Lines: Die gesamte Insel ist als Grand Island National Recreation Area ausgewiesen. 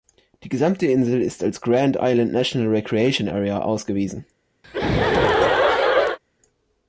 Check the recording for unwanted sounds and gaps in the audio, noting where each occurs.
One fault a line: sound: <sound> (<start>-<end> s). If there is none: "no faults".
sound: laugh (4.6-6.2 s)